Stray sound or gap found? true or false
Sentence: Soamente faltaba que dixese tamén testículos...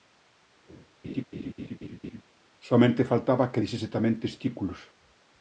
true